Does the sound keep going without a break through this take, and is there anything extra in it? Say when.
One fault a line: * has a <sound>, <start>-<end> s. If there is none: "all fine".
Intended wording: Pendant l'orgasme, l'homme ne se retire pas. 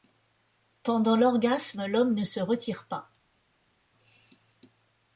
all fine